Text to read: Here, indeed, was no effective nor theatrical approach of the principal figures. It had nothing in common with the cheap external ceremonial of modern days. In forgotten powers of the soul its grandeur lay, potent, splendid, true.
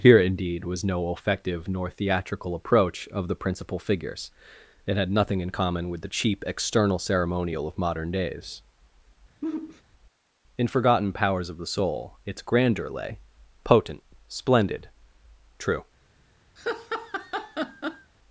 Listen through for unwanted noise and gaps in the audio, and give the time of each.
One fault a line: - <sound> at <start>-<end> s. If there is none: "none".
- sigh at 9.4-9.8 s
- laugh at 16.6-18.1 s